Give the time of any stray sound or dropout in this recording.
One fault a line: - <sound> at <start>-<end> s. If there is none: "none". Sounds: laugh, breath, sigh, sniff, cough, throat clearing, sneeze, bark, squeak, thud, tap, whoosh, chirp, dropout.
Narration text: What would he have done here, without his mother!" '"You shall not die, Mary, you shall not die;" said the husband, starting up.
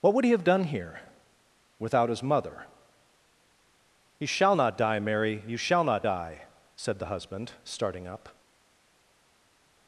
none